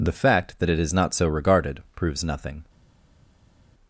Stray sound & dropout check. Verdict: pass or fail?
pass